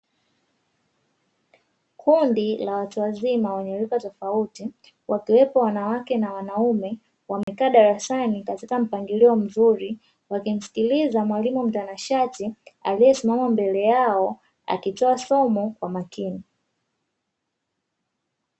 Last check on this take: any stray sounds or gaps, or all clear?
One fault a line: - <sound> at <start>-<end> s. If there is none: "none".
- dropout at 7.4-7.5 s